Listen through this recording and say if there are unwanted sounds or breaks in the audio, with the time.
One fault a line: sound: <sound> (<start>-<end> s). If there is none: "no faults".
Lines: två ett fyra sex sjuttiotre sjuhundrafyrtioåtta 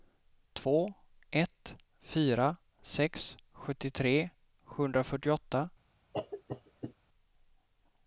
sound: cough (6.1-6.9 s)